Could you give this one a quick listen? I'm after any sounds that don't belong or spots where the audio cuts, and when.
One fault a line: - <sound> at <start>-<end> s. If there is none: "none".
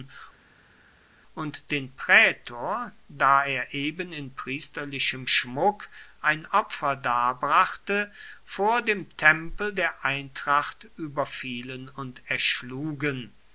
none